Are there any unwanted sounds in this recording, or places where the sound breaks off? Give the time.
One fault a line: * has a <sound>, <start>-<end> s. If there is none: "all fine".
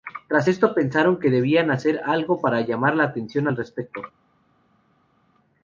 all fine